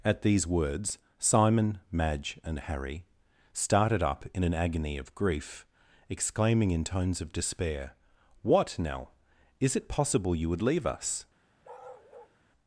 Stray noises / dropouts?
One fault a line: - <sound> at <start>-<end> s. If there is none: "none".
- bark at 11.6-12.4 s